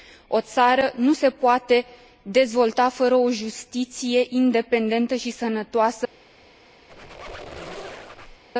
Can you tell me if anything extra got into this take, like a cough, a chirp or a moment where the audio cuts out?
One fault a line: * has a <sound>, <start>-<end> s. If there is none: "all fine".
* has a squeak, 6.9-8.4 s